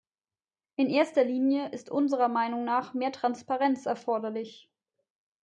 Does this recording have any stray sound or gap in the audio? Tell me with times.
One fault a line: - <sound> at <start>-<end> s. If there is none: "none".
none